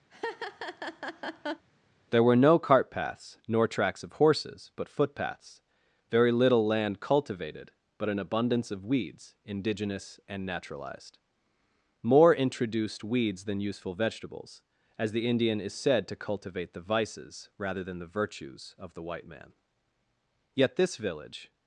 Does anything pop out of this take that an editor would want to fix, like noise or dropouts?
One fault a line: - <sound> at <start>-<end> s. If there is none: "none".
- laugh at 0.1-1.7 s